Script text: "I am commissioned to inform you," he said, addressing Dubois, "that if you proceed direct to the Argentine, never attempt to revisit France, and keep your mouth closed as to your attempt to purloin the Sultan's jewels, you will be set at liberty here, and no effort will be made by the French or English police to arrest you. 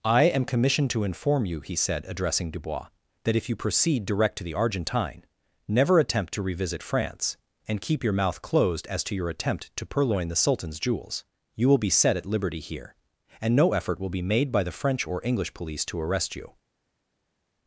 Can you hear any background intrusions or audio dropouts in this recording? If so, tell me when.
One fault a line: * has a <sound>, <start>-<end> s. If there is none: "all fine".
all fine